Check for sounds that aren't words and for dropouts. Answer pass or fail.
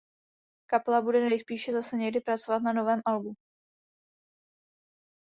pass